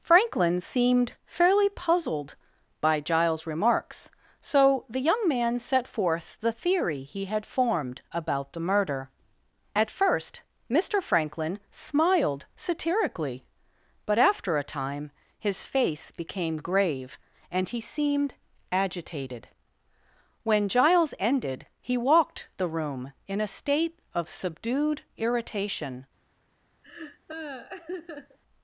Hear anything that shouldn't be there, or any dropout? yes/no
yes